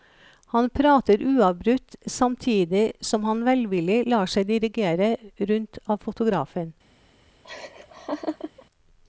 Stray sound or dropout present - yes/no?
yes